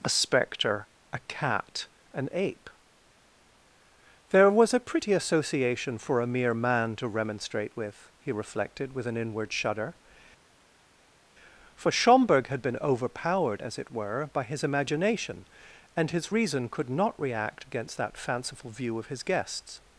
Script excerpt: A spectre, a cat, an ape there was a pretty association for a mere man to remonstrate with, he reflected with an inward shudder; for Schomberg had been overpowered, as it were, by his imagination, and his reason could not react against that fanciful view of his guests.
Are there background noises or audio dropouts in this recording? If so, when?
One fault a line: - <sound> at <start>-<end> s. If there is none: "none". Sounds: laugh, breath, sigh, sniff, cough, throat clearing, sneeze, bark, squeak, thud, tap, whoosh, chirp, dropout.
none